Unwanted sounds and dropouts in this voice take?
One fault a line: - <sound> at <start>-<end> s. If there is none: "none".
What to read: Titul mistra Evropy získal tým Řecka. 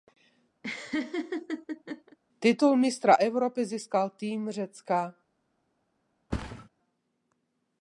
- laugh at 0.6-2.2 s
- thud at 6.3-6.7 s